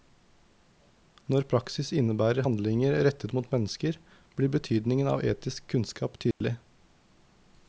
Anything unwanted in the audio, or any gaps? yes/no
yes